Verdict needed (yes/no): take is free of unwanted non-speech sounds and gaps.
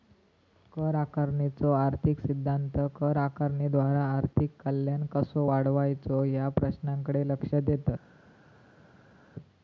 yes